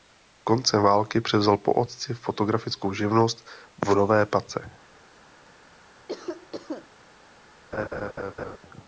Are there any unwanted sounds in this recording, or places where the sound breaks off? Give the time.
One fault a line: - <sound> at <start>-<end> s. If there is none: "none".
- cough at 6.1-6.9 s
- laugh at 7.7-8.6 s